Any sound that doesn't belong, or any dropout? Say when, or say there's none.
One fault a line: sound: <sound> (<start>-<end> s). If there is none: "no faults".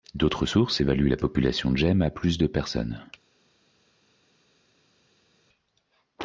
no faults